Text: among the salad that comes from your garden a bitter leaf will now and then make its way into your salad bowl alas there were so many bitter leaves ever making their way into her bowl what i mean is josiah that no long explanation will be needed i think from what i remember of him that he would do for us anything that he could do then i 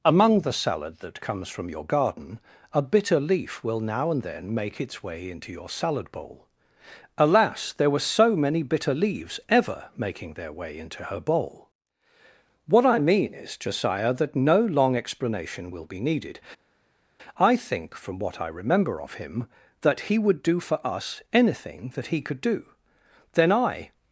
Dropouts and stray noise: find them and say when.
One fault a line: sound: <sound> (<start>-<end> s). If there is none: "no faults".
no faults